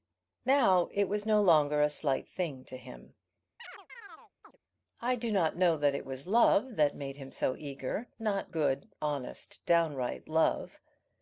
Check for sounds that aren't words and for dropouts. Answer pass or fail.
fail